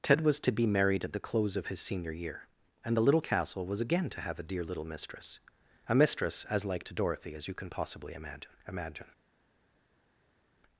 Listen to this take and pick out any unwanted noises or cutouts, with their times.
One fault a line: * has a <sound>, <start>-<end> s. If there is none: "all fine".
all fine